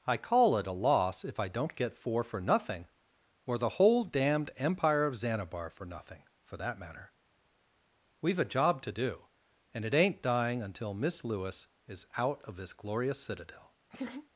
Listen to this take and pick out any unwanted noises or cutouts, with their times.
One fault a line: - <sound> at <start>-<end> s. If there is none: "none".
- laugh at 13.9-14.3 s